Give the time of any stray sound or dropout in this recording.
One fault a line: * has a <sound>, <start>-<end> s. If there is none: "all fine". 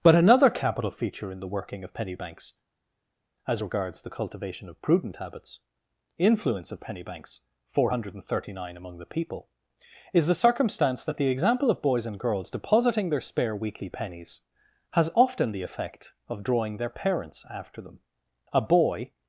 all fine